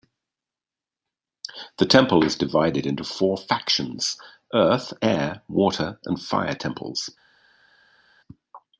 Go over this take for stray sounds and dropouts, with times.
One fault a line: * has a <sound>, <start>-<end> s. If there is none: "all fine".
all fine